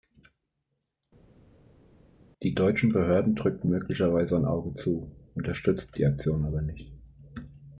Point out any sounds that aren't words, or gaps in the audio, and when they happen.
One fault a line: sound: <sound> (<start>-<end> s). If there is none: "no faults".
no faults